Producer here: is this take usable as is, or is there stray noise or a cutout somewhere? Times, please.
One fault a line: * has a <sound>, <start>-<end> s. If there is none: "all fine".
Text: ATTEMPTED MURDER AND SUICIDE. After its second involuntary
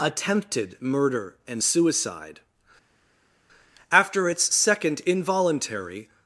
all fine